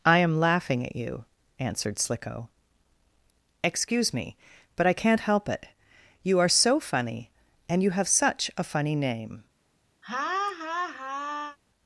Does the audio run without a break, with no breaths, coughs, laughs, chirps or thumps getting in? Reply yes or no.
no